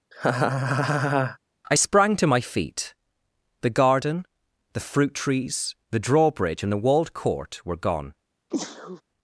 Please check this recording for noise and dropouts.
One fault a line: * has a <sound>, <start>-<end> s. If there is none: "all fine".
* has a laugh, 0.1-1.4 s
* has a sneeze, 8.5-9.0 s